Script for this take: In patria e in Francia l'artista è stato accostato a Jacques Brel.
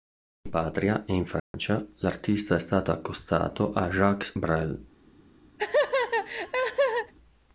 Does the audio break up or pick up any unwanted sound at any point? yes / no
yes